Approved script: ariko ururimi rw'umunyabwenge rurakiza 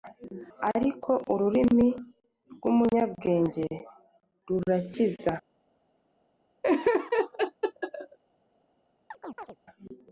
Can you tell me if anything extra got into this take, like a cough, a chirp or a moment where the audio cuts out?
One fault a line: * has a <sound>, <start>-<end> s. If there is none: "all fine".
* has a laugh, 6.6-8.2 s
* has a chirp, 9.1-9.6 s